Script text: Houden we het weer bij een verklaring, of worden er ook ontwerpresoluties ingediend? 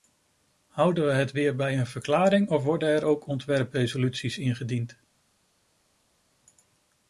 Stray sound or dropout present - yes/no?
no